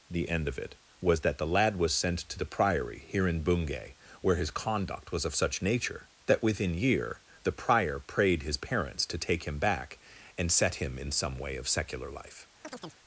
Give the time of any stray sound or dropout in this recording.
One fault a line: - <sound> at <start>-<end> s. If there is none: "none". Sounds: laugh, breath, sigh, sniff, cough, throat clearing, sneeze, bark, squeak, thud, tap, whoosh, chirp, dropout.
- chirp at 12.6-13.0 s